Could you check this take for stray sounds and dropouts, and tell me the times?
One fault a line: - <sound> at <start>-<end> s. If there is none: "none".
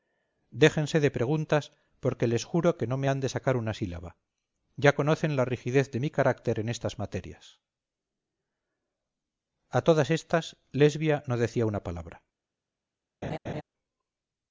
- laugh at 13.2-13.6 s